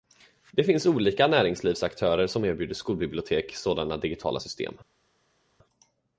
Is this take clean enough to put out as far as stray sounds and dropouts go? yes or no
yes